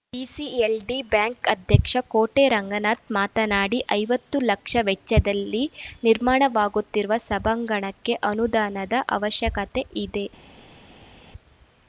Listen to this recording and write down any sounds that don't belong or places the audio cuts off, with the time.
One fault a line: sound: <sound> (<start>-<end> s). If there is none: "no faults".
no faults